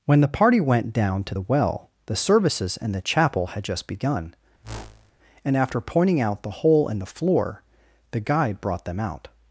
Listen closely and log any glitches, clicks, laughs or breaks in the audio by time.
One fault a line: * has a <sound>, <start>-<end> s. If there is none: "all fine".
* has a whoosh, 4.6-5.1 s